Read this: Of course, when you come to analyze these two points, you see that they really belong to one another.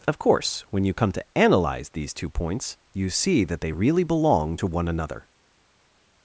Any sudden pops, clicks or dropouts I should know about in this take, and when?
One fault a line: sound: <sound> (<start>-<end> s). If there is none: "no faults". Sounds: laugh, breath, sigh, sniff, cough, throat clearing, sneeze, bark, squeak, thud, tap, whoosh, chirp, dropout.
no faults